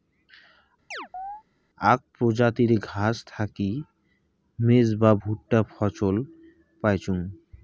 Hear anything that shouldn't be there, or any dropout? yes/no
yes